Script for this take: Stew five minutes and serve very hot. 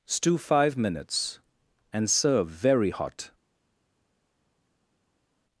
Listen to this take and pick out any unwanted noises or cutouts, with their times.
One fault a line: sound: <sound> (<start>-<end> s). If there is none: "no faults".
no faults